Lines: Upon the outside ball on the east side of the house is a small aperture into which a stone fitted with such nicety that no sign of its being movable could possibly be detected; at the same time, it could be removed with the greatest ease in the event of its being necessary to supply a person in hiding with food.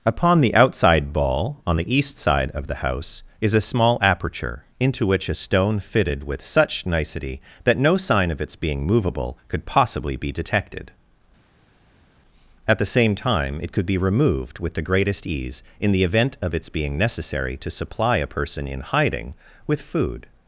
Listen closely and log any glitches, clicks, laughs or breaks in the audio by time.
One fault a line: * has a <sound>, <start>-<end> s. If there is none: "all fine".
all fine